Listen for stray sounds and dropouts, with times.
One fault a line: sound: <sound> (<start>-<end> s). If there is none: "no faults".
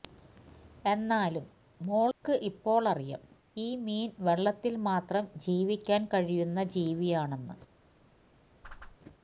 sound: dropout (2.1-2.2 s)
sound: whoosh (8.6-9.0 s)